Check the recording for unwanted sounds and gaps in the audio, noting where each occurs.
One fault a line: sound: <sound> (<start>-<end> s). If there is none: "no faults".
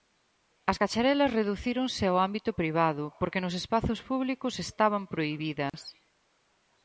sound: dropout (5.7-5.7 s)